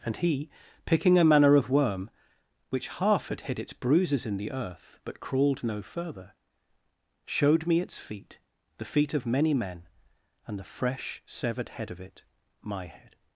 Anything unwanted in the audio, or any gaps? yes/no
no